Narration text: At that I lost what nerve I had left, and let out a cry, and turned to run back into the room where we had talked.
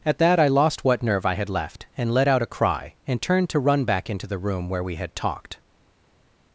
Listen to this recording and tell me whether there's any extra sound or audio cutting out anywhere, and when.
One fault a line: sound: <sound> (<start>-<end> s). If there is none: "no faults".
no faults